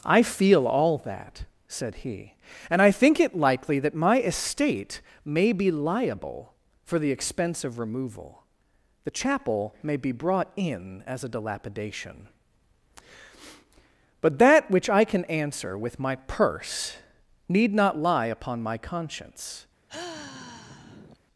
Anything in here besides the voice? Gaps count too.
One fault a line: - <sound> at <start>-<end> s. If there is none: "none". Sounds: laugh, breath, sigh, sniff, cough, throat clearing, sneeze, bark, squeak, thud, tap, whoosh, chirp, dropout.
- sigh at 19.9-21.2 s